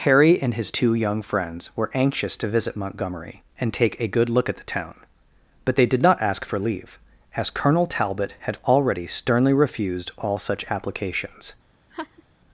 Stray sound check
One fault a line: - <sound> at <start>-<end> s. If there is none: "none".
- laugh at 11.9-12.2 s